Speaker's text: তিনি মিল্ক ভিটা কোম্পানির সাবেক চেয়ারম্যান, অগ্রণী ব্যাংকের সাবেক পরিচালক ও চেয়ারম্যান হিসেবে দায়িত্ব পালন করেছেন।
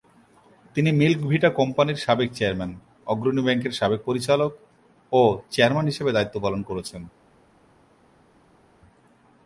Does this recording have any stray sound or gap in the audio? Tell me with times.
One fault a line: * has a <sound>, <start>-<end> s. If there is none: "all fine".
all fine